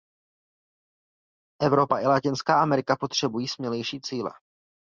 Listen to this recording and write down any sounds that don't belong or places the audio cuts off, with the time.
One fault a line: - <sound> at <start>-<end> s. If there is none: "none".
none